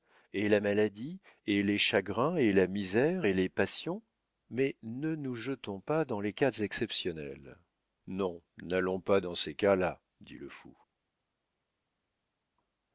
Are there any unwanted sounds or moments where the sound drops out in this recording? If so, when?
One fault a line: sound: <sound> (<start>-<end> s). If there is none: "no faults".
no faults